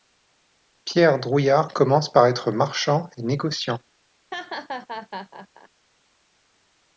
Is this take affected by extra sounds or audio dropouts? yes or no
yes